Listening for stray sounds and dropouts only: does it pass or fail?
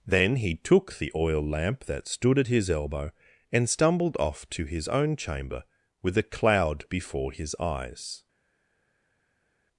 pass